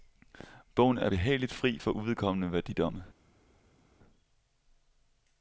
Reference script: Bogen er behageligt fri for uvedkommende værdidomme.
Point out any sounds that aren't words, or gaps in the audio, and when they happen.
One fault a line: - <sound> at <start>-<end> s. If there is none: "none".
none